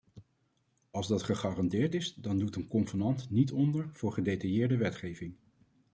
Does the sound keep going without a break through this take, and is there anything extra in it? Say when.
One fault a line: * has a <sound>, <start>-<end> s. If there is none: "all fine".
all fine